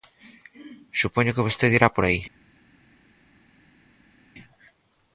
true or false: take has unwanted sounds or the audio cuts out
false